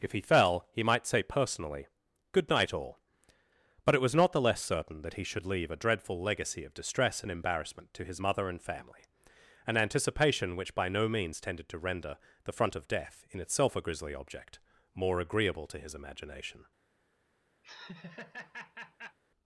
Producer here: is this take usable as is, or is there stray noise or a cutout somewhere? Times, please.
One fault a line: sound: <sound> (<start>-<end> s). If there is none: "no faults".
sound: laugh (17.6-19.2 s)